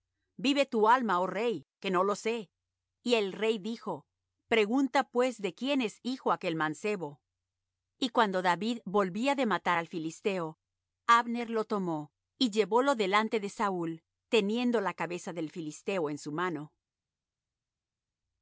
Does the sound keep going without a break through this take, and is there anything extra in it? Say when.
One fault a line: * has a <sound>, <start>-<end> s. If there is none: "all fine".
all fine